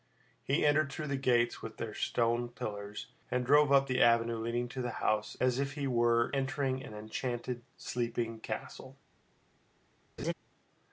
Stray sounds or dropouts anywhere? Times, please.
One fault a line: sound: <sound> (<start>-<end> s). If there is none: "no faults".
sound: laugh (10.2-10.3 s)